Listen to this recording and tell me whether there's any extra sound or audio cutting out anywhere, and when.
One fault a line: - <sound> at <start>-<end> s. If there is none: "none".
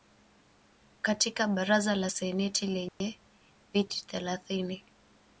- dropout at 2.9-3.0 s